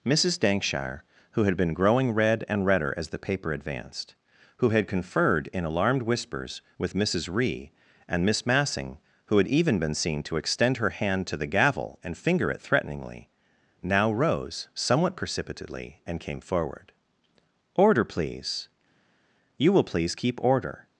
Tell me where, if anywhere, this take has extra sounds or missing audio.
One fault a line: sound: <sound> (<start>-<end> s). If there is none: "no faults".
no faults